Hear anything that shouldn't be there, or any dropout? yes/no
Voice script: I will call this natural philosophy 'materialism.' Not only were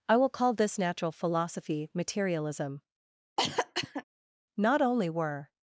yes